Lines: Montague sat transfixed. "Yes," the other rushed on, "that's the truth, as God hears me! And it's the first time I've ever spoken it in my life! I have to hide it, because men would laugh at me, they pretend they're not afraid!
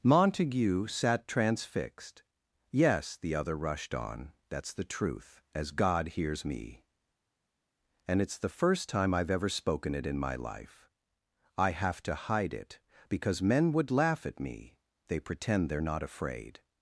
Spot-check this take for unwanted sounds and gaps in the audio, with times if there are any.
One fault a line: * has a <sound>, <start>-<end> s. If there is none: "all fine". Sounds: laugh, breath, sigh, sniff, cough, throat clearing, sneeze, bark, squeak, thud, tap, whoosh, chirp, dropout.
all fine